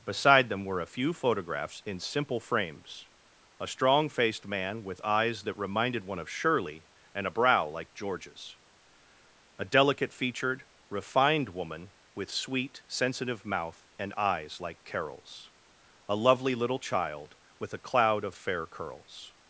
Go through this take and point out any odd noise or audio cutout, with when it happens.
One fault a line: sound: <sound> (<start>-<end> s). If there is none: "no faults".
no faults